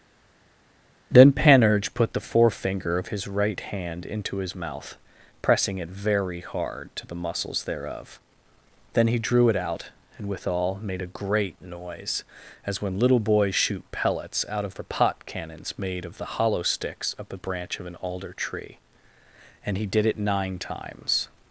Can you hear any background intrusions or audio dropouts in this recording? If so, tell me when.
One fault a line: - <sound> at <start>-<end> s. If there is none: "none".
none